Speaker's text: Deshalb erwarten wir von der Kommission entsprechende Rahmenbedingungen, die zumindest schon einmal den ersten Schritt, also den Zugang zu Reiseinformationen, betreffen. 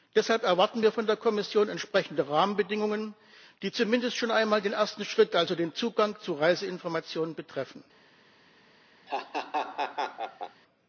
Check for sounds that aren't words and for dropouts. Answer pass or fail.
fail